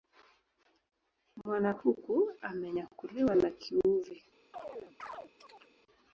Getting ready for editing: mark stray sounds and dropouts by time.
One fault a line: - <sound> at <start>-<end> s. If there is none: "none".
- chirp at 4.5-5.7 s